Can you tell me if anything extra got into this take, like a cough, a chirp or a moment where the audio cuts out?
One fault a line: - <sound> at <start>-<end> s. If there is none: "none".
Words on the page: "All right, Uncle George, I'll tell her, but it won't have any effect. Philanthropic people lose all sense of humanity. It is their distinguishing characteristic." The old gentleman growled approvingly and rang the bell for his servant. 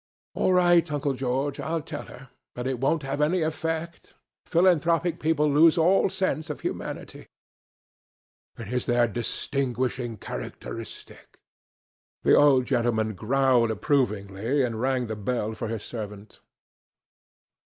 none